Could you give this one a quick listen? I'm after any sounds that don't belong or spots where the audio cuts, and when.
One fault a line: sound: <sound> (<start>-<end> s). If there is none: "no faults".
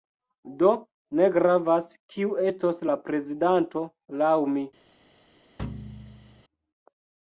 sound: thud (5.6-6.4 s)